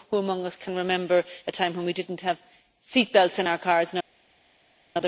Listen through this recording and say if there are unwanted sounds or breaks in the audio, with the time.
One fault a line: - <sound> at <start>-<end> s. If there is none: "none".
none